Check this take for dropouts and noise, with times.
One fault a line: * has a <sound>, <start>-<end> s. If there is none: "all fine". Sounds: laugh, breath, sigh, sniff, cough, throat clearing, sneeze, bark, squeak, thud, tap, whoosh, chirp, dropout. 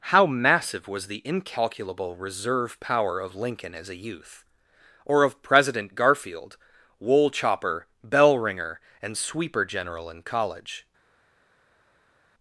all fine